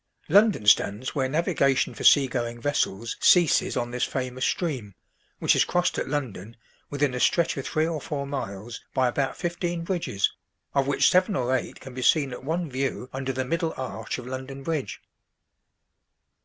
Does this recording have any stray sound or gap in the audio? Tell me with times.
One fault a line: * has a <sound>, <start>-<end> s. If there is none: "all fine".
all fine